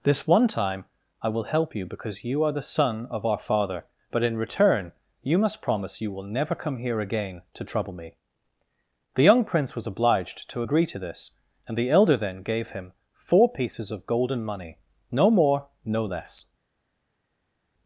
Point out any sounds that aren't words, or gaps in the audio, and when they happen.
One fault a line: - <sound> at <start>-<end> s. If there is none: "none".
none